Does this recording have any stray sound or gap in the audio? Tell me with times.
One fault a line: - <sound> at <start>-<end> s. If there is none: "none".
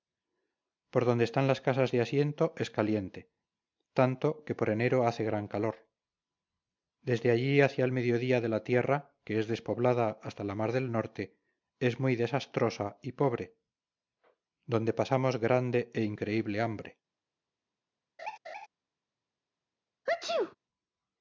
- laugh at 18.2-18.7 s
- sneeze at 20.1-20.6 s